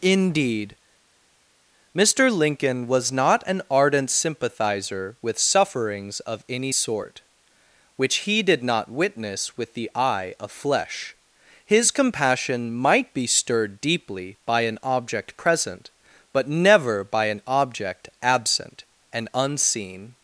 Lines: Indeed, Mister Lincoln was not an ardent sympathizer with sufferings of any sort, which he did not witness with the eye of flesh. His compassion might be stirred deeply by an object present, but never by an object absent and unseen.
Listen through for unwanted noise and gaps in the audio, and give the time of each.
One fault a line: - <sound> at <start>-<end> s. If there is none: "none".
none